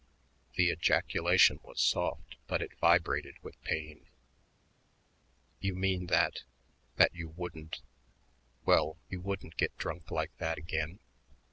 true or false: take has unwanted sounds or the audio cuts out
false